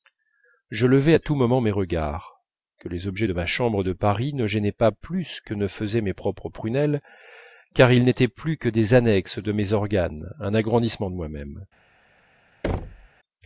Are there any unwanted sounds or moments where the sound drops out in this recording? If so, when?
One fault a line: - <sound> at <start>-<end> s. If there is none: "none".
- thud at 12.6-13.1 s